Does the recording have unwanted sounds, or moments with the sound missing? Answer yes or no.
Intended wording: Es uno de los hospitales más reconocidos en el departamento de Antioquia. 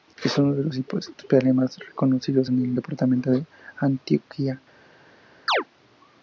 yes